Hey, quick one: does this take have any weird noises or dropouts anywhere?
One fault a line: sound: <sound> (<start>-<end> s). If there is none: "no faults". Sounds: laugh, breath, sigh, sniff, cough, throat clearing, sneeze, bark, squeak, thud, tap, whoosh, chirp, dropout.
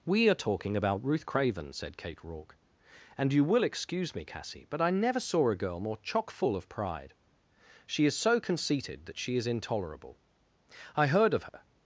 sound: dropout (11.5-11.5 s)